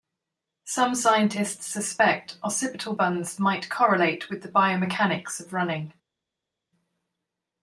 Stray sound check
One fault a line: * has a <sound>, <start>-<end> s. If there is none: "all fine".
all fine